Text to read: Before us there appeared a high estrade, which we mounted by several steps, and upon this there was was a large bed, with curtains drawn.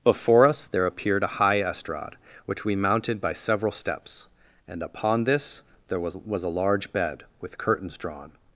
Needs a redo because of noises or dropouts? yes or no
no